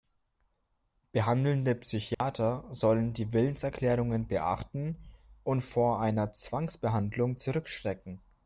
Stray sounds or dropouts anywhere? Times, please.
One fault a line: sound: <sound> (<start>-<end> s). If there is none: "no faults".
sound: dropout (2.1-2.2 s)